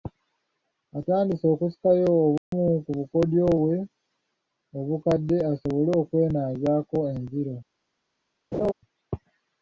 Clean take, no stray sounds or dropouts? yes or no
no